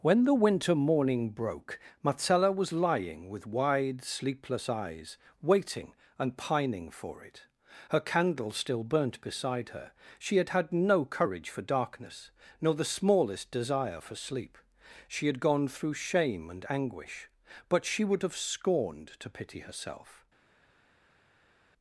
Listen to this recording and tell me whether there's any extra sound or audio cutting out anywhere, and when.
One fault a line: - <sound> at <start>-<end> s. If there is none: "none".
none